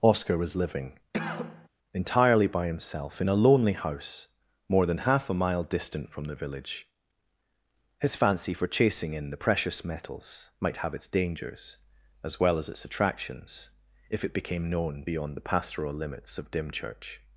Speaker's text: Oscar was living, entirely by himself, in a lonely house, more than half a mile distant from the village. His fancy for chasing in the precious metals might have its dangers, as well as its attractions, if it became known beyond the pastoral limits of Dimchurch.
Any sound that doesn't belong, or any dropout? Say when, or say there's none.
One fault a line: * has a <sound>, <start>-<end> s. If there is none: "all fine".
* has a cough, 1.1-1.7 s